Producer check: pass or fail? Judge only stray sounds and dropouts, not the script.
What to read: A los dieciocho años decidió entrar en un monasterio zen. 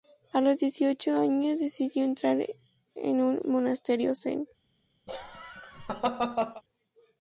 fail